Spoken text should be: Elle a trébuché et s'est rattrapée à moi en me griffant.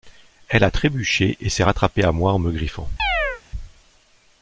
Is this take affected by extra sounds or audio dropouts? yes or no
yes